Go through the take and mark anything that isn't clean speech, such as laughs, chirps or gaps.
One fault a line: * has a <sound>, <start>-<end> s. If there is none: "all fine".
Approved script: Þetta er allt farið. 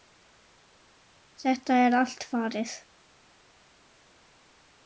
all fine